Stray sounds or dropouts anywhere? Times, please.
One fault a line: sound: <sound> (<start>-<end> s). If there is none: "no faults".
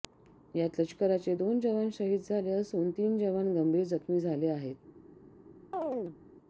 sound: chirp (5.7-6.2 s)